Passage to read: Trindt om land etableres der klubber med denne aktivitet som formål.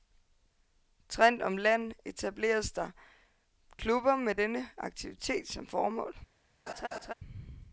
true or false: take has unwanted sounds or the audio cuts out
true